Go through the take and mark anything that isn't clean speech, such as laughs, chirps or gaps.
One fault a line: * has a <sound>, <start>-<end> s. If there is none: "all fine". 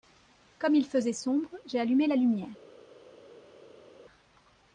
all fine